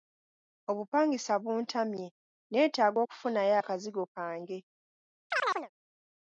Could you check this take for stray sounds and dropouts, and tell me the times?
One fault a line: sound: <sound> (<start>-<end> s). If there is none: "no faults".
sound: chirp (5.3-5.7 s)